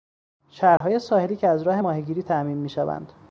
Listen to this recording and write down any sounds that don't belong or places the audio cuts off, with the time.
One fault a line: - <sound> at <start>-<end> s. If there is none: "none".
- dropout at 0.8-0.8 s